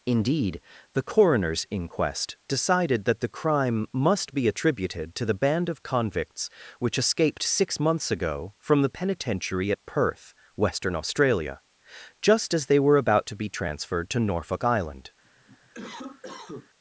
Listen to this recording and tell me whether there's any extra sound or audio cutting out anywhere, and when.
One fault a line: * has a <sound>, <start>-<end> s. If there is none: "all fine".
* has a cough, 15.2-16.7 s